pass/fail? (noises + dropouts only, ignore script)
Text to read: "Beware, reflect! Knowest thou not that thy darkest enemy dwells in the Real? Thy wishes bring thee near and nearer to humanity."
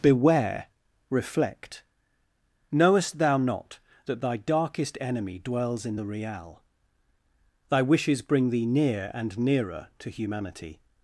pass